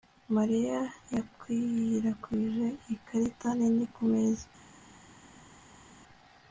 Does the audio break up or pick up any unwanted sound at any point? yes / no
no